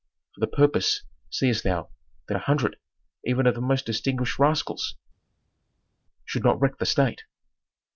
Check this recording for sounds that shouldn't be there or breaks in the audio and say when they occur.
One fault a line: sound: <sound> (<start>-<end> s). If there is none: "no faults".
no faults